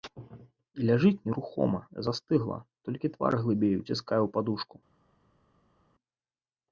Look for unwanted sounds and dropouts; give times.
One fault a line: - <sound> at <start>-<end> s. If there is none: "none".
none